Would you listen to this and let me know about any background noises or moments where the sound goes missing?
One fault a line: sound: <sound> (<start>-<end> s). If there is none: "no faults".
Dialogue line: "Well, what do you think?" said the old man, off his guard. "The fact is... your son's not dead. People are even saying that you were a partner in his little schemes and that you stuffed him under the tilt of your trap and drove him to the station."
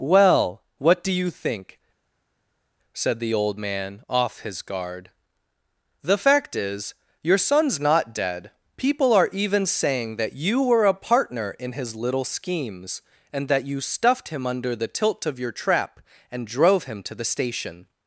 no faults